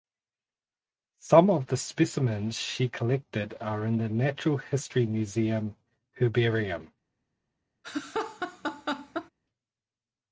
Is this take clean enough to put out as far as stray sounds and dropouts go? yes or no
no